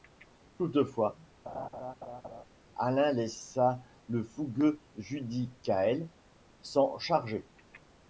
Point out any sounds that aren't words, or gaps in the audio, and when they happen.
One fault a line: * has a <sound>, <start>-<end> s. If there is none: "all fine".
* has a laugh, 1.5-2.4 s